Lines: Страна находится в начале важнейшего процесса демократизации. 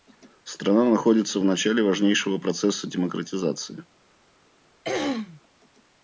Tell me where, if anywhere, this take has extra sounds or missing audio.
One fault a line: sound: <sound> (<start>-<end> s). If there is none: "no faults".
sound: throat clearing (4.8-5.4 s)